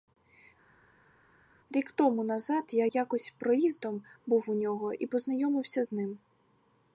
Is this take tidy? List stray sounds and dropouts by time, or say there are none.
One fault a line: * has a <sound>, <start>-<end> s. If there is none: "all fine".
all fine